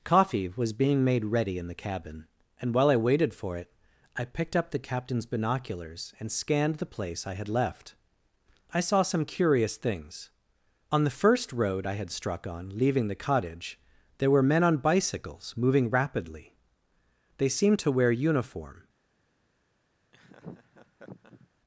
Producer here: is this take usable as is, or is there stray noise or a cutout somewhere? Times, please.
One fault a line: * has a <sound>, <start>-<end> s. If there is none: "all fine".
* has a laugh, 20.1-21.5 s